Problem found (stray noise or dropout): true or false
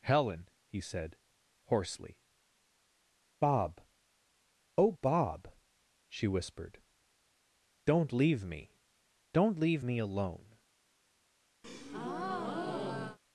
true